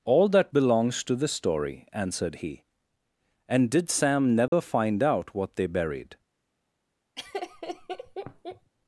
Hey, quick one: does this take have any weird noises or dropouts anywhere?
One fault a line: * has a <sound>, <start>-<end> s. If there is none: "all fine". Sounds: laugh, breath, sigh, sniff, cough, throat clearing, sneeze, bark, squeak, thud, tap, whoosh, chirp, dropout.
* has a dropout, 4.5-4.5 s
* has a laugh, 7.2-8.7 s